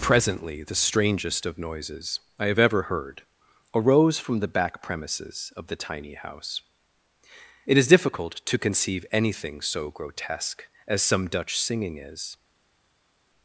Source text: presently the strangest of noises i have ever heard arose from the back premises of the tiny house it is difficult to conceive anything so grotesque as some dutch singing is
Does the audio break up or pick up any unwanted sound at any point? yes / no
no